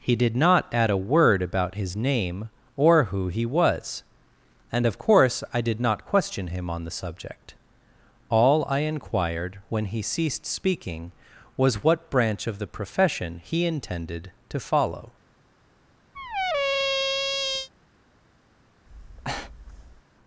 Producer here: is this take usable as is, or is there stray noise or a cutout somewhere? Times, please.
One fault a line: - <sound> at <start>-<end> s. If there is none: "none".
- squeak at 16.1-17.7 s
- breath at 18.9-20.0 s